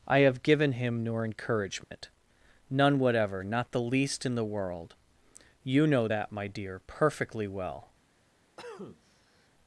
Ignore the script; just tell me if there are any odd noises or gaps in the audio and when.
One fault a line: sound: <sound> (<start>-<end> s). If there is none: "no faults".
sound: dropout (1.8-1.9 s)
sound: cough (8.6-9.5 s)